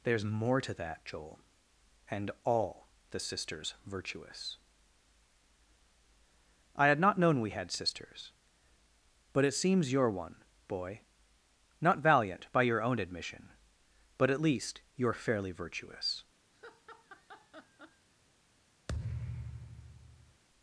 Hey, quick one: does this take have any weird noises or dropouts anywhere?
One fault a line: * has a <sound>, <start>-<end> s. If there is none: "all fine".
* has a laugh, 16.5-18.1 s
* has a thud, 18.9-20.4 s